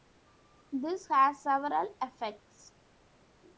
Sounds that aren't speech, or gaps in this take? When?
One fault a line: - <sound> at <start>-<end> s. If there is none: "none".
none